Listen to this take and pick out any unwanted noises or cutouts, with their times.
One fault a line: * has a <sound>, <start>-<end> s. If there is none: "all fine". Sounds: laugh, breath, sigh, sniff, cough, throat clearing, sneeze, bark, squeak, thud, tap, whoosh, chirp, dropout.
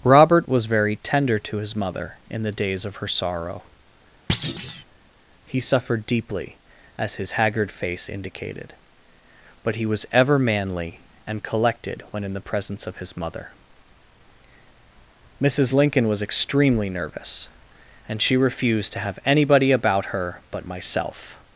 * has a thud, 4.3-4.8 s